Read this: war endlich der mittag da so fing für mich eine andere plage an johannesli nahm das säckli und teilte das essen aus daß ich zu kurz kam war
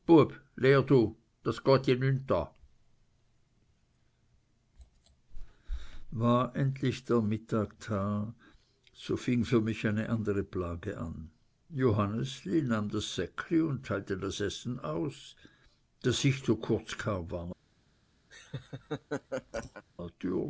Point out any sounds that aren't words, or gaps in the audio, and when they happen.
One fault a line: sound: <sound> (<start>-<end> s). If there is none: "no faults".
sound: laugh (18.3-19.8 s)